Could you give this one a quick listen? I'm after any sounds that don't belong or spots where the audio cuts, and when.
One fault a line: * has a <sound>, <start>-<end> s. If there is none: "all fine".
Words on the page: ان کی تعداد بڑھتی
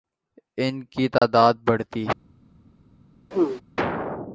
* has a dropout, 1.2-1.2 s
* has a throat clearing, 3.3-3.6 s